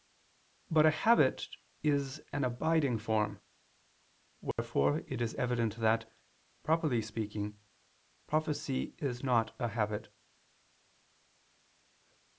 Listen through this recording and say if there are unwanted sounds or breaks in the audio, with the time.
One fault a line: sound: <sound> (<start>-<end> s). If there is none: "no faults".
sound: dropout (4.5-4.6 s)